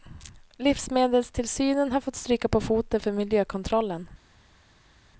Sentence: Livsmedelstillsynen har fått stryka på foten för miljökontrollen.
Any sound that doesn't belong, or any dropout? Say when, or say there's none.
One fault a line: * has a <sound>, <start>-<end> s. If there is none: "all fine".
all fine